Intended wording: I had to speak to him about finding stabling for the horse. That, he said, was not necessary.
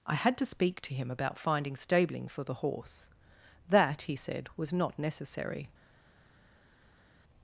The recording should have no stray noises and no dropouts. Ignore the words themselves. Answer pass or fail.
pass